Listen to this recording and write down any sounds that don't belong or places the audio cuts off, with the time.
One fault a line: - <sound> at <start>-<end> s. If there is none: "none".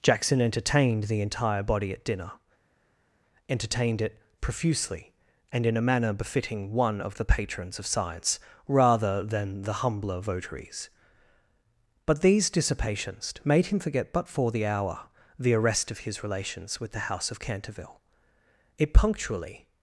none